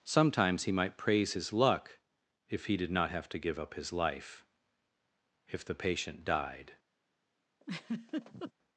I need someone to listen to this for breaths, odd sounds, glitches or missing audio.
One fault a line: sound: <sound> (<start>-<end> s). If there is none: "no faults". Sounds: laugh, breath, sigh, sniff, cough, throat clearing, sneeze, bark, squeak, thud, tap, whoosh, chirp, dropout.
sound: laugh (7.6-8.5 s)